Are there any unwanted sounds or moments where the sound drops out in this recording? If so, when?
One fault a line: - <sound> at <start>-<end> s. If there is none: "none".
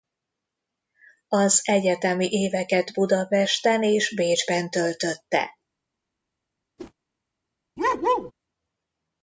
- whoosh at 6.8-6.9 s
- bark at 7.8-8.3 s